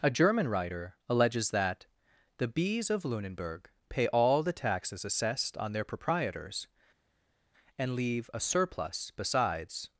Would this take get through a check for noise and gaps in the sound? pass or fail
pass